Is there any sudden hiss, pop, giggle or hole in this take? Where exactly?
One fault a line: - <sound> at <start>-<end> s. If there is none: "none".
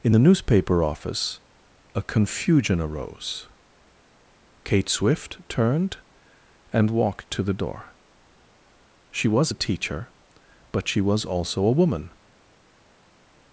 none